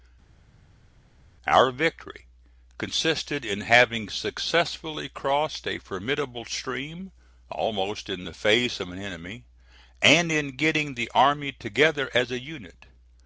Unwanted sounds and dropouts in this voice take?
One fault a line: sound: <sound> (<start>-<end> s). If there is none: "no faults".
no faults